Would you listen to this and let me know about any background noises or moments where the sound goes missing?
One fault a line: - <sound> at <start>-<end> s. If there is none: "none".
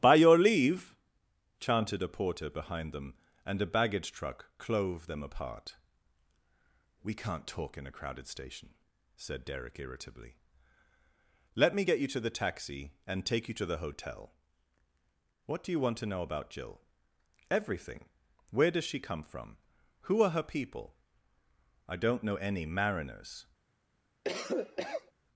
- cough at 24.2-25.1 s